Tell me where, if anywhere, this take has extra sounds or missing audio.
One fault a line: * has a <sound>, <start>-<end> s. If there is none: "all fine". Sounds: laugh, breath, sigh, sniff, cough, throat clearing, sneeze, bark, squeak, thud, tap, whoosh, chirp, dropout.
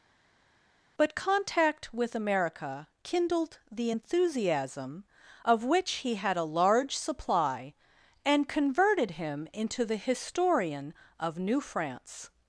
all fine